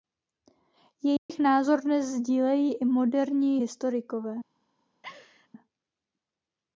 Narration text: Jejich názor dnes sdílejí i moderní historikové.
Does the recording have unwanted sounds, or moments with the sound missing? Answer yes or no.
yes